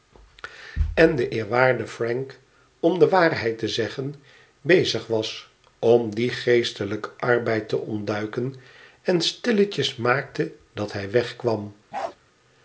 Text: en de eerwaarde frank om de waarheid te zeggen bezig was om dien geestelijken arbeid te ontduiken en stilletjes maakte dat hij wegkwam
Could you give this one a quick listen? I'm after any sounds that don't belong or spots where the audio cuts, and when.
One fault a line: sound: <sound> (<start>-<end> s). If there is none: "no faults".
sound: bark (11.9-12.2 s)